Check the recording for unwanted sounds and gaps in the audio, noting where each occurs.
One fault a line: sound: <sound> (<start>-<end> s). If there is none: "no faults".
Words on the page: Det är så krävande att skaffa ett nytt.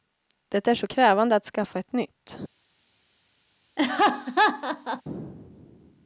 sound: laugh (3.8-5.0 s)